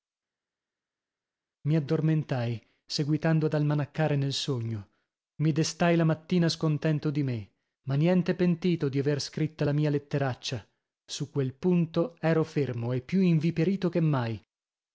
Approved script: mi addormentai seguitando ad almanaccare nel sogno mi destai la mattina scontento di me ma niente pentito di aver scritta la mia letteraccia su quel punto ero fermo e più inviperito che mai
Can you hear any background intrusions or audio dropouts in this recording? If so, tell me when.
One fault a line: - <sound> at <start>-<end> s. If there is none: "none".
none